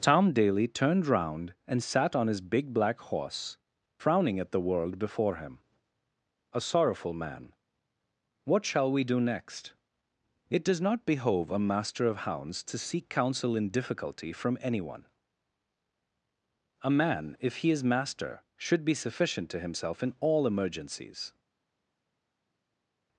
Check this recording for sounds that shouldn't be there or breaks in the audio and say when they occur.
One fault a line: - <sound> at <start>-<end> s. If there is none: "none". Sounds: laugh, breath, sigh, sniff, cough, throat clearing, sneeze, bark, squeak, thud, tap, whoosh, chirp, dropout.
none